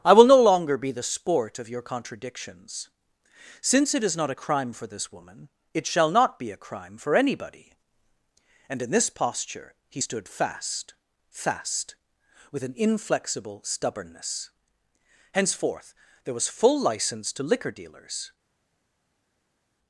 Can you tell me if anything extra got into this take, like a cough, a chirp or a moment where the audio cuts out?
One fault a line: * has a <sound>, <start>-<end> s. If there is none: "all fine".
all fine